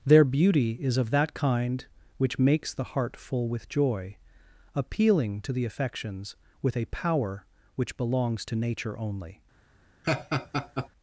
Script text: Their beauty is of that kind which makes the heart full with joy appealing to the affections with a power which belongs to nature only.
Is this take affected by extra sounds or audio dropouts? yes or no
yes